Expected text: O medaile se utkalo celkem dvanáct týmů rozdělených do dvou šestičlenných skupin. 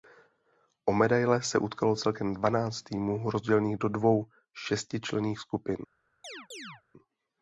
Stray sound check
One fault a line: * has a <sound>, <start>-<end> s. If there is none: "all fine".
* has a chirp, 6.2-6.8 s